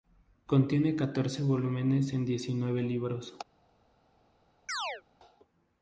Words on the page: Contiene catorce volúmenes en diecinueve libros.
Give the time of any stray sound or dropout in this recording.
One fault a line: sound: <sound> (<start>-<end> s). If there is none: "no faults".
sound: chirp (4.7-5.0 s)